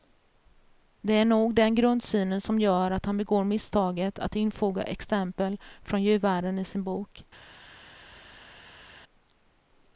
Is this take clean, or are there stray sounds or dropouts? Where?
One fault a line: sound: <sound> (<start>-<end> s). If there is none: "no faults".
no faults